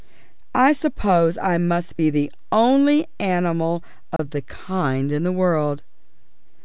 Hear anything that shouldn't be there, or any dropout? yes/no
yes